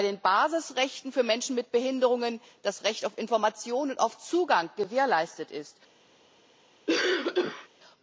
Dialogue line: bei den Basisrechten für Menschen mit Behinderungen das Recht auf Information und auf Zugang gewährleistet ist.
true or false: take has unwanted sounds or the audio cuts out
true